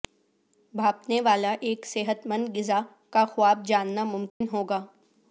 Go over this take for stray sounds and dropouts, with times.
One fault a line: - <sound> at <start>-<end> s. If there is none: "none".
- dropout at 4.3-4.4 s